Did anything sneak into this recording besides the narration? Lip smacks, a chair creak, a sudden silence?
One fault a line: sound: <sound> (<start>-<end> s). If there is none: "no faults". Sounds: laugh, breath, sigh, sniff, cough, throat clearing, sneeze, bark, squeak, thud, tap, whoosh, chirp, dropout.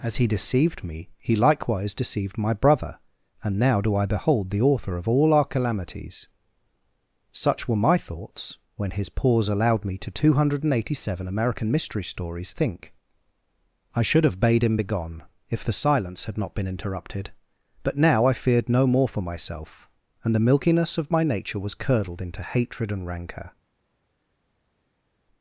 no faults